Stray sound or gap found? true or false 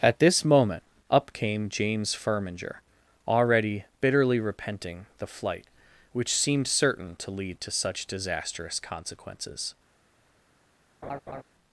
true